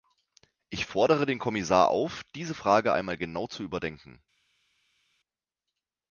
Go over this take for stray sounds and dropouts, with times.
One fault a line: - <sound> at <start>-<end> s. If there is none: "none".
none